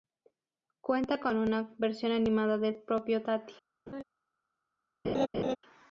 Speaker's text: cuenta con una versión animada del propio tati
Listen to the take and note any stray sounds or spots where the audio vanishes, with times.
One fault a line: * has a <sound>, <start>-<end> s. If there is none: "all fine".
* has a laugh, 3.9-4.0 s
* has a laugh, 5.0-5.6 s